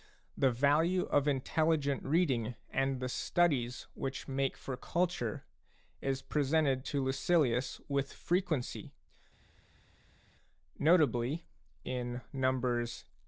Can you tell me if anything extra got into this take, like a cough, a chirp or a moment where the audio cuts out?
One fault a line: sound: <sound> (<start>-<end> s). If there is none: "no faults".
no faults